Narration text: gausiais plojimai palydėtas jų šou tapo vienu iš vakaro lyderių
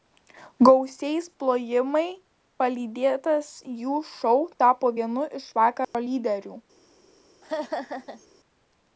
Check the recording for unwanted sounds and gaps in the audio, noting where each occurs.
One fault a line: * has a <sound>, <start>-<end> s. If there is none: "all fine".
* has a dropout, 5.8-5.9 s
* has a laugh, 7.4-8.3 s